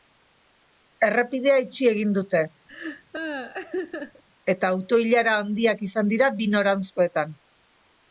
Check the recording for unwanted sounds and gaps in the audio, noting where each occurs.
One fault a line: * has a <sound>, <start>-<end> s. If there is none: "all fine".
* has a laugh, 2.7-4.2 s